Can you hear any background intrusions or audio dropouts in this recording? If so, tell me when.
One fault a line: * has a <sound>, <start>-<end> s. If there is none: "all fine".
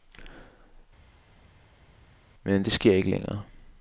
all fine